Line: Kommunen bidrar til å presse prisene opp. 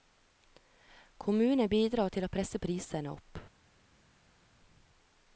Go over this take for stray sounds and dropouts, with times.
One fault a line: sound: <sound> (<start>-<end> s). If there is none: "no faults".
no faults